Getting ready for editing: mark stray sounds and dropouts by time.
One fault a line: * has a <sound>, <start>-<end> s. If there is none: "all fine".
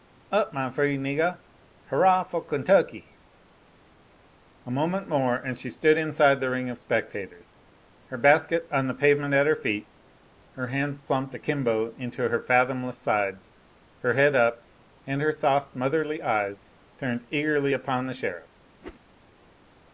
* has a whoosh, 18.8-19.0 s